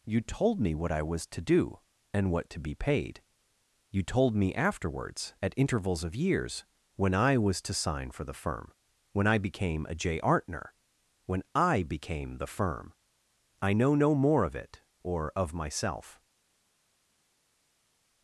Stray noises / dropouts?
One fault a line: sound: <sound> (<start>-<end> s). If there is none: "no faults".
no faults